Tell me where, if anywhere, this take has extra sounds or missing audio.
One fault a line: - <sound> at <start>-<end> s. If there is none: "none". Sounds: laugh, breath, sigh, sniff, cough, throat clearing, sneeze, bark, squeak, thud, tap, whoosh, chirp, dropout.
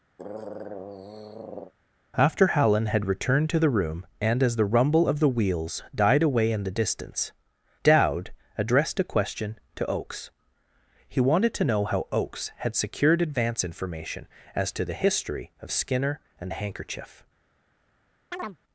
- throat clearing at 0.2-1.7 s
- chirp at 18.3-18.6 s